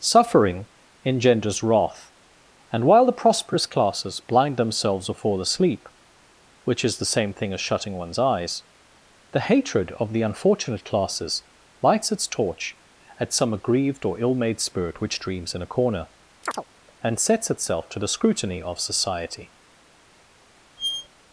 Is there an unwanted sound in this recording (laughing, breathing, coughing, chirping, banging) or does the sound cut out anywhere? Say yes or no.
yes